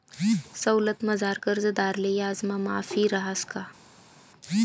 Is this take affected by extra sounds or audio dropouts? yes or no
no